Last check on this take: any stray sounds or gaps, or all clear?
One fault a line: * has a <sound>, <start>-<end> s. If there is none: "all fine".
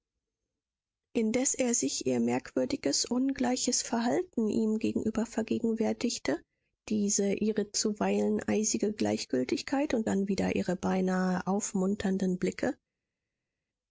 all fine